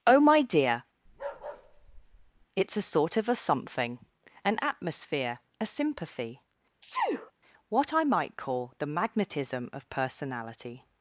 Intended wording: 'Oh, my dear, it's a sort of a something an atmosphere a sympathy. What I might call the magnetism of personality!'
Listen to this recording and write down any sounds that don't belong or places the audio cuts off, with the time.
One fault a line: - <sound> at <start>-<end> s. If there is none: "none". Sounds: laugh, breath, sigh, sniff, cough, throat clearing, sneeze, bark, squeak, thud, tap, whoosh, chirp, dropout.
- bark at 1.1-2.5 s
- sneeze at 6.8-7.3 s